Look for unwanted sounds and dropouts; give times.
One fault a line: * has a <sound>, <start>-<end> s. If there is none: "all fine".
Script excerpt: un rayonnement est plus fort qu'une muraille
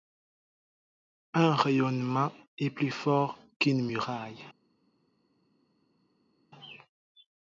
all fine